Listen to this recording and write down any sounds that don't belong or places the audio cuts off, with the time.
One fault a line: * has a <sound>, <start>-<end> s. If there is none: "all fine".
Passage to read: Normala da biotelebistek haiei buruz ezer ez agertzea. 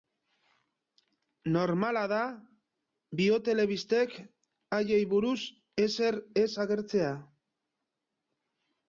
all fine